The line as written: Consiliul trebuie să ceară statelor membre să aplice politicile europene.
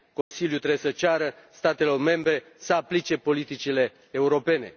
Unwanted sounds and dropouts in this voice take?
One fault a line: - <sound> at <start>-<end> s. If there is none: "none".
- dropout at 0.2-0.3 s